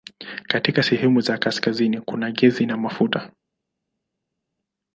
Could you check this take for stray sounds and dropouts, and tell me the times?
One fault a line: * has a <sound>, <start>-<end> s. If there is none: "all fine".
all fine